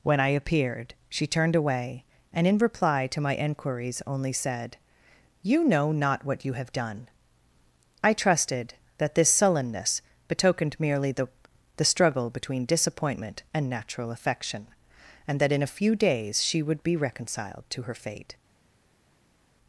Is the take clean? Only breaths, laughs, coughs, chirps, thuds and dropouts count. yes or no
yes